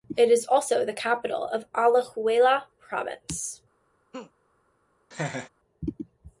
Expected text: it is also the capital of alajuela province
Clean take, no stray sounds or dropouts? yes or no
no